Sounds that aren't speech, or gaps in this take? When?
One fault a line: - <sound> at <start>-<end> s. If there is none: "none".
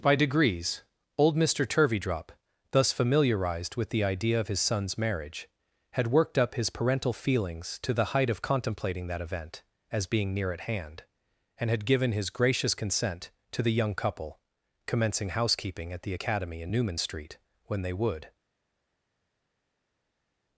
none